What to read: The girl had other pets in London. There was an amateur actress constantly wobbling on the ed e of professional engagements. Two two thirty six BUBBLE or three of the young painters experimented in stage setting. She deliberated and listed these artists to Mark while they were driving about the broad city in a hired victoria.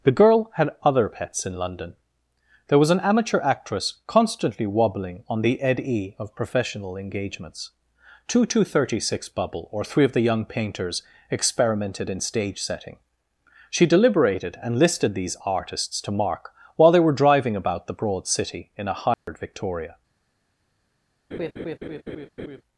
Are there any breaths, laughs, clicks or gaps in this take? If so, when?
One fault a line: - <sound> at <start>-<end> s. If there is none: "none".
- dropout at 19.1-19.3 s
- laugh at 21.3-22.6 s